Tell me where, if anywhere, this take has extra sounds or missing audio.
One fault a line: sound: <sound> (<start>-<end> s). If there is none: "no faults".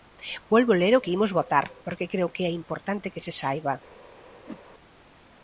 sound: whoosh (4.5-4.6 s)